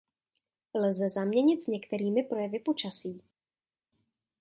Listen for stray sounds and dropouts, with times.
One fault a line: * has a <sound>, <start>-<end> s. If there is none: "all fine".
all fine